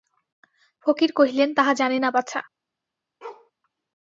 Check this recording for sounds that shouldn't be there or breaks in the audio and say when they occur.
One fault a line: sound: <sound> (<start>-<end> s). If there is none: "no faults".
sound: bark (3.2-3.5 s)